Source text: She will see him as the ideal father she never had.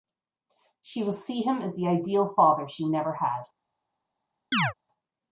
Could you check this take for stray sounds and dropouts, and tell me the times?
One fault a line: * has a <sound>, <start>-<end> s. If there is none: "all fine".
* has a chirp, 4.5-4.7 s